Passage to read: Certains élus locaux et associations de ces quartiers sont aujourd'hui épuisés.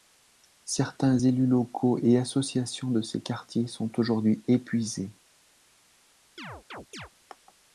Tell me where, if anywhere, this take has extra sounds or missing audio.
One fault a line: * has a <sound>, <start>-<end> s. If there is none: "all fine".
* has a chirp, 6.4-7.1 s